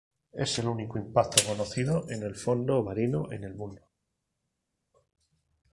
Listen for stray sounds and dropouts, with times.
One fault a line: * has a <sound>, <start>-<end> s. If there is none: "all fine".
all fine